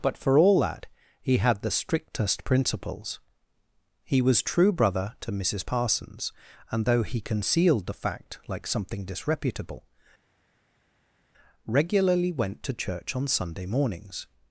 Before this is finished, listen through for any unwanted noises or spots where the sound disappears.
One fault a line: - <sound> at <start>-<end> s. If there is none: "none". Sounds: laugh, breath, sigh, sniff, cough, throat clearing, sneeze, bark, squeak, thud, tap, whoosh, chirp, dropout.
none